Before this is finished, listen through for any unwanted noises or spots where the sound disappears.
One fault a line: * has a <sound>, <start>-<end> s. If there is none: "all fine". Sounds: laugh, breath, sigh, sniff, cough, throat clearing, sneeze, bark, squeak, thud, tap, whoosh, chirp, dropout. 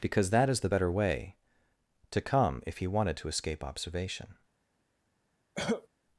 * has a cough, 5.6-5.9 s